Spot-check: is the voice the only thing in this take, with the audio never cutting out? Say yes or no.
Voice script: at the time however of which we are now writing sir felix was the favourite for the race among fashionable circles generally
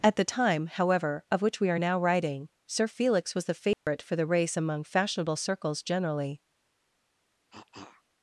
no